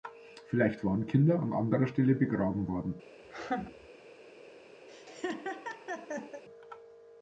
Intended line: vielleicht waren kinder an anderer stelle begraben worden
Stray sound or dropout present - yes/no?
yes